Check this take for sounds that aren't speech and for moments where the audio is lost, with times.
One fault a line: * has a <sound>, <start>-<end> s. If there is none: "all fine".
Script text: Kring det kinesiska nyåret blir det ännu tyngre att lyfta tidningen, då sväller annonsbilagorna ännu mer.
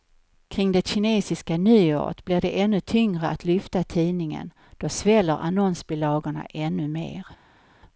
all fine